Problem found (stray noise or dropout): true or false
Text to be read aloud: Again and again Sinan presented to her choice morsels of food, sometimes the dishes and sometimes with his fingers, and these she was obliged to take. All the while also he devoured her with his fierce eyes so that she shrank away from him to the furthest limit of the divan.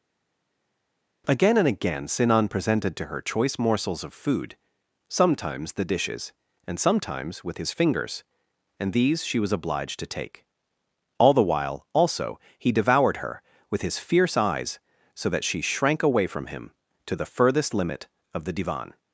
false